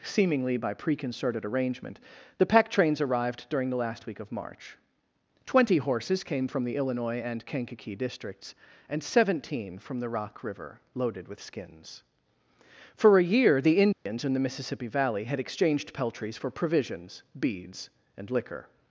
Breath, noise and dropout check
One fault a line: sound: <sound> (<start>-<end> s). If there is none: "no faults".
sound: dropout (13.9-14.1 s)